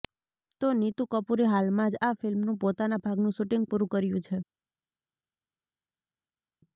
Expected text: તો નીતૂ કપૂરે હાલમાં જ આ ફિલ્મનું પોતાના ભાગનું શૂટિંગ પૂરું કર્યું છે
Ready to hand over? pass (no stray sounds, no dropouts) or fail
pass